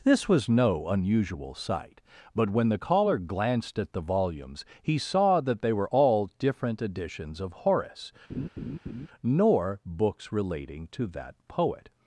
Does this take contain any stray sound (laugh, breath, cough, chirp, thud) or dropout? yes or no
yes